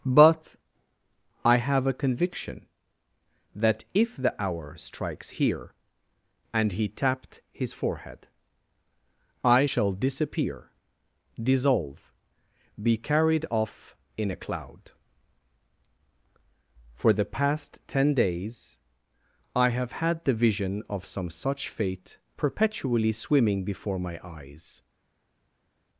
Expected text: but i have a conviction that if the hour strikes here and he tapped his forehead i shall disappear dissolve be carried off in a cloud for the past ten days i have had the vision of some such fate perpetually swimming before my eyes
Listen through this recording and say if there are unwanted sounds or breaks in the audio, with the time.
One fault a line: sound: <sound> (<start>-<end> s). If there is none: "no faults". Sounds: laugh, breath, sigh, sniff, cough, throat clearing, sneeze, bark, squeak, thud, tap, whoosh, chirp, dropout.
no faults